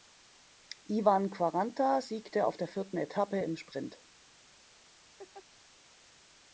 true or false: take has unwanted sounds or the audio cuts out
true